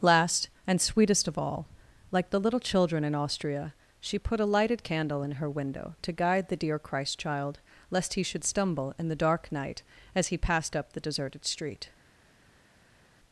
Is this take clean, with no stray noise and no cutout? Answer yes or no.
yes